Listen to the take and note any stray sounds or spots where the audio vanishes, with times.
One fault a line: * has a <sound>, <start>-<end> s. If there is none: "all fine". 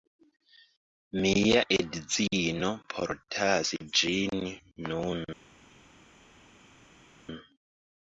all fine